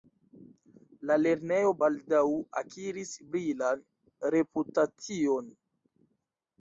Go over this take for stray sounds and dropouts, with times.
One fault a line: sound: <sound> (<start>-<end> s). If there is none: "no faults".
no faults